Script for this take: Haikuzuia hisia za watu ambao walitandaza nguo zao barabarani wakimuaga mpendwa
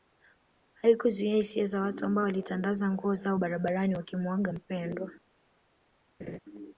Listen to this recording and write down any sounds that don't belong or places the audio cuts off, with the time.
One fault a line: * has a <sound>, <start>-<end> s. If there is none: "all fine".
* has a laugh, 6.2-6.4 s